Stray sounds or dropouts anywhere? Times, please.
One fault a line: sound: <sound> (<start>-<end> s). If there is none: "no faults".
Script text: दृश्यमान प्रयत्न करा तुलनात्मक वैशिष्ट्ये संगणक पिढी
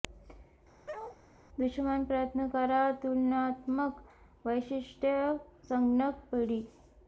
sound: bark (0.9-1.2 s)